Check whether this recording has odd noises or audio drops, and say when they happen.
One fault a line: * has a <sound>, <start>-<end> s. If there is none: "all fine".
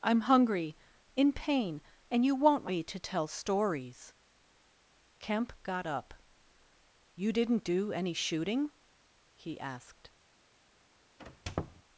* has a squeak, 11.2-11.8 s